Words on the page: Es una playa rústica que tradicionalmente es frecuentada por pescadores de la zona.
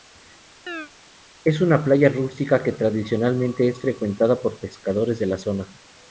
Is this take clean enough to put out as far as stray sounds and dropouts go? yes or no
no